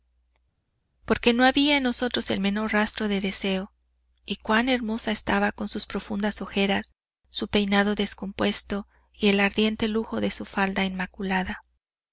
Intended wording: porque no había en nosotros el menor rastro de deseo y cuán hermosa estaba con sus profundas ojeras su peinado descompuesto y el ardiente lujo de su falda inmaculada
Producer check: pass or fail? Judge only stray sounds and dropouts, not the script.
pass